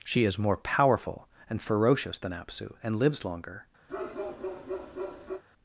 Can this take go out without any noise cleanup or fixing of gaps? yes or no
no